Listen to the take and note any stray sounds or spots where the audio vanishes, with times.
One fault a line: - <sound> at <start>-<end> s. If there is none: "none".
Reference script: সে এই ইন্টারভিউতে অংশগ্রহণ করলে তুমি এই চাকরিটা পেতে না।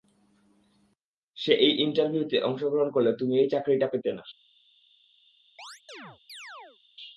- chirp at 5.6-6.8 s